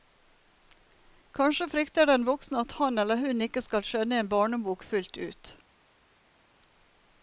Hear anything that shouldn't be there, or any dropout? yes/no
no